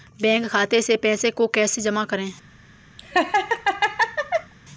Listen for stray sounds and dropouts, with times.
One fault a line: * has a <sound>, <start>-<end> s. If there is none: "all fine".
* has a laugh, 3.0-4.5 s